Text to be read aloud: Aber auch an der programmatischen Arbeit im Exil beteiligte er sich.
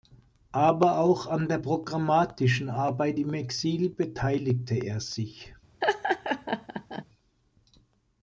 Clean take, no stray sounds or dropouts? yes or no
no